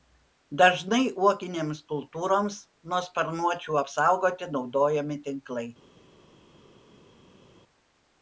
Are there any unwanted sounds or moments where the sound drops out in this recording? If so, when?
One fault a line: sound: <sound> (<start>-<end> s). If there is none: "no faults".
no faults